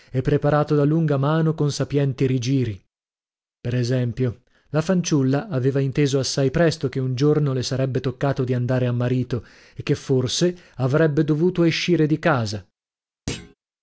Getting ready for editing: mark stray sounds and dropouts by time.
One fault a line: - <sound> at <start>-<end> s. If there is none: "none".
- thud at 13.3-13.5 s